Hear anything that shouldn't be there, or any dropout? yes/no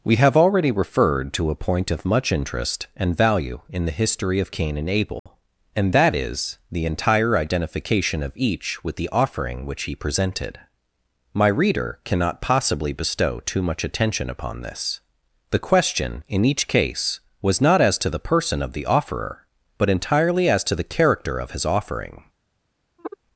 yes